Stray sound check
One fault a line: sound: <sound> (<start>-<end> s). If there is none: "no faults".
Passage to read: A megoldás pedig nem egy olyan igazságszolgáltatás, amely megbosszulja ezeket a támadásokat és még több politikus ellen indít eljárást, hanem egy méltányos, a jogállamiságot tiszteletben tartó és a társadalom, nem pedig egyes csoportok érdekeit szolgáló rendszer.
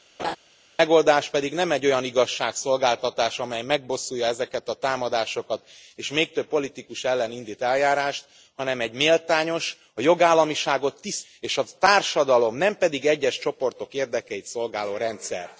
sound: laugh (0.2-0.4 s)